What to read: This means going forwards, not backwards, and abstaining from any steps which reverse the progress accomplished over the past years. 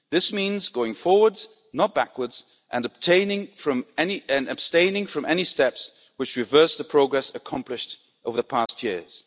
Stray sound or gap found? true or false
true